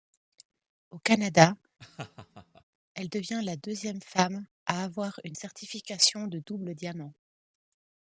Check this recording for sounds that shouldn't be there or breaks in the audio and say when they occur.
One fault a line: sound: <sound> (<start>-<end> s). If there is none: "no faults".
sound: laugh (1.8-2.6 s)